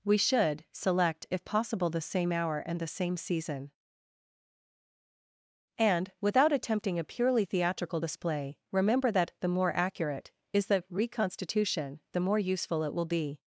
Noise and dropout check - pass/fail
pass